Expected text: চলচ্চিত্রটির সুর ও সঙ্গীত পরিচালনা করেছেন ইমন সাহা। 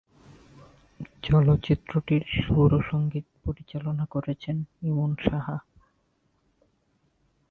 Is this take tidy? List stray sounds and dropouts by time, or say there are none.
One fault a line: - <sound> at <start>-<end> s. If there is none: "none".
none